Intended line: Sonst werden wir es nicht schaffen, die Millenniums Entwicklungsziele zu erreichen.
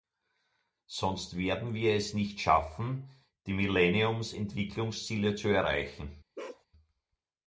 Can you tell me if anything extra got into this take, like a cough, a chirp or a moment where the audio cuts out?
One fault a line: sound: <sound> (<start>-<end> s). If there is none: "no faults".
sound: bark (6.4-6.7 s)